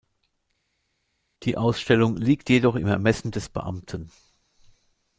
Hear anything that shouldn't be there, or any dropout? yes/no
no